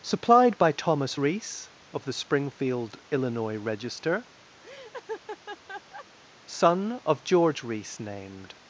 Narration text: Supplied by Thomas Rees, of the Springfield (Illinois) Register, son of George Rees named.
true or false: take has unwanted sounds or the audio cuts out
true